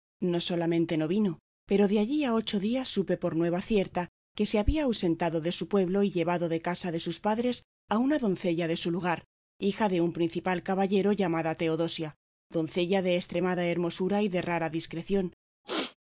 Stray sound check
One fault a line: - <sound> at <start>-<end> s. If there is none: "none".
- throat clearing at 15.6-16.0 s